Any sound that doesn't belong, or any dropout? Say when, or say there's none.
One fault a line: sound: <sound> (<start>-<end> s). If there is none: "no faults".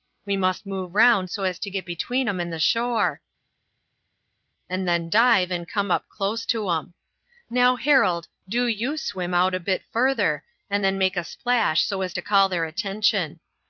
no faults